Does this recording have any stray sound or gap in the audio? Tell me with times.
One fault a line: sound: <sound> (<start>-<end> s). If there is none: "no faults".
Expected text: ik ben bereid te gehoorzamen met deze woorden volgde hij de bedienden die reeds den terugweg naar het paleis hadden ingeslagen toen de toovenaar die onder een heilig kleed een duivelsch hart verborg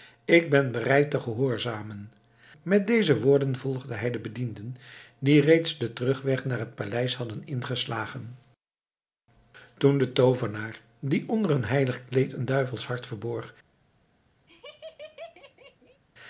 sound: laugh (14.5-16.0 s)